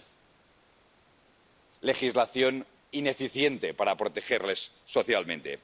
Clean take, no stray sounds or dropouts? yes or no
yes